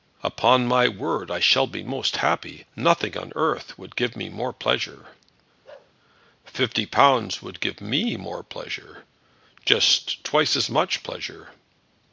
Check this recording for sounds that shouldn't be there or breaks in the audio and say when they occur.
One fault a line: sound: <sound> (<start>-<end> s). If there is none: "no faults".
sound: bark (5.6-5.9 s)